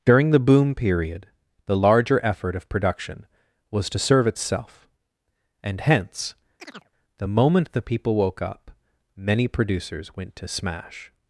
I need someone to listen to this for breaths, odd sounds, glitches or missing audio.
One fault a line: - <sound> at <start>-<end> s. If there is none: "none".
- chirp at 6.6-6.9 s